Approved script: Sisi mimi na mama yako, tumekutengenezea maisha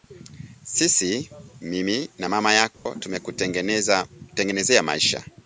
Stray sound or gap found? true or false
true